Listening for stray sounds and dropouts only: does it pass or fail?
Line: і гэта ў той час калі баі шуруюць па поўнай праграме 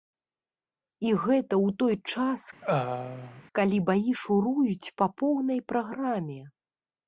fail